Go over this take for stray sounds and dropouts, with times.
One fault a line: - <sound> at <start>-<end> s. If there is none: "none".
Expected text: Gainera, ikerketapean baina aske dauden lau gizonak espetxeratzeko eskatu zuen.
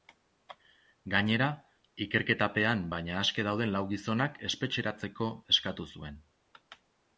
none